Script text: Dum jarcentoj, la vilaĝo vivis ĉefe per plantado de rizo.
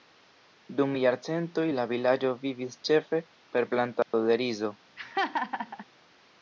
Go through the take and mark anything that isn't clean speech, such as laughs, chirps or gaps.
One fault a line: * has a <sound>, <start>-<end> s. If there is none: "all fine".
* has a dropout, 4.0-4.1 s
* has a laugh, 5.0-5.9 s